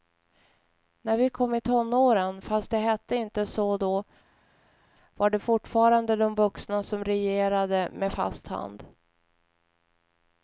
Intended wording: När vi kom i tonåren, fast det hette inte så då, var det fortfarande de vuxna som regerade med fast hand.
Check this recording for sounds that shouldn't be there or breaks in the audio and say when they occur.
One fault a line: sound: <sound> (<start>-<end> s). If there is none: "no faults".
no faults